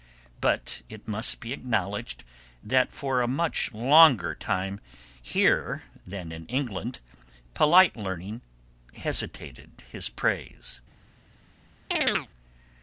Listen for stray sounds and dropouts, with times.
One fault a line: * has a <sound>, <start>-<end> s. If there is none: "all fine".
* has a chirp, 11.9-12.3 s